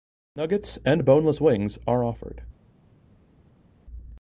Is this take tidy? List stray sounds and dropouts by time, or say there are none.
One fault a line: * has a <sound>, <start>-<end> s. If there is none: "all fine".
all fine